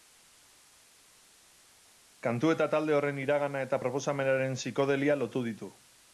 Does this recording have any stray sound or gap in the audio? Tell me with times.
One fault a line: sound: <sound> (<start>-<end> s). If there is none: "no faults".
no faults